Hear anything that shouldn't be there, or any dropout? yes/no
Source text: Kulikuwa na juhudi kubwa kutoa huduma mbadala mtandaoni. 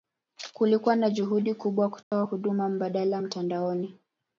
yes